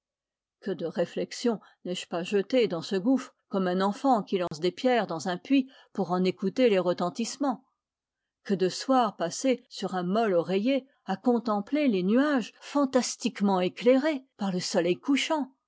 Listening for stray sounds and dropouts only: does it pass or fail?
fail